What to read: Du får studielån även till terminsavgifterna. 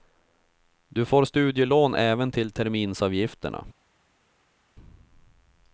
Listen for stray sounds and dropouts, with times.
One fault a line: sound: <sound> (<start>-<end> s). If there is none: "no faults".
no faults